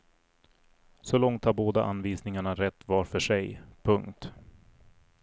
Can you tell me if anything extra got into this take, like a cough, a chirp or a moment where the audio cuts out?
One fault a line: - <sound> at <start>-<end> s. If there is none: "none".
none